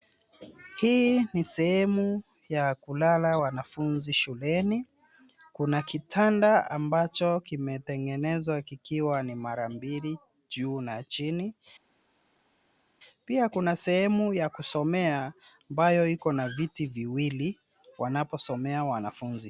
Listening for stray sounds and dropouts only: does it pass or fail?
pass